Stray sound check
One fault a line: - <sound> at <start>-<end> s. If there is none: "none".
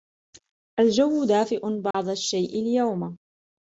- dropout at 1.9-1.9 s